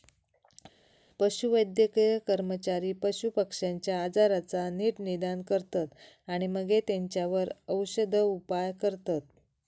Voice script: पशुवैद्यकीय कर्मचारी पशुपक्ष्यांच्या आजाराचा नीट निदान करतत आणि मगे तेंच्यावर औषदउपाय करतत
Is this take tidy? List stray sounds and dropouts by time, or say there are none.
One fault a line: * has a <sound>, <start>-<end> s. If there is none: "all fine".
all fine